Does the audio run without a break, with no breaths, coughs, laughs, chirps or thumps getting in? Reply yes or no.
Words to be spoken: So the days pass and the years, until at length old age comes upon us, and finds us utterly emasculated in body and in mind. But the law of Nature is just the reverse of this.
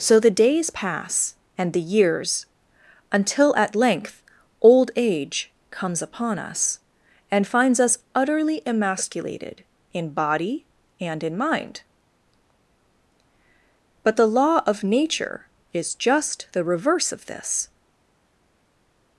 yes